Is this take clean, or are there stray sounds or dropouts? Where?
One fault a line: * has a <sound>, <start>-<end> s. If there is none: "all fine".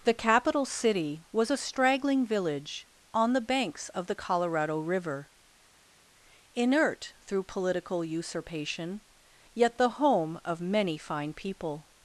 all fine